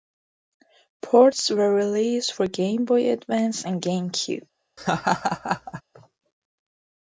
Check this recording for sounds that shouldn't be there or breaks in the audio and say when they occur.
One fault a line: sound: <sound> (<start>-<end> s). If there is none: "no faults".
sound: laugh (4.8-5.8 s)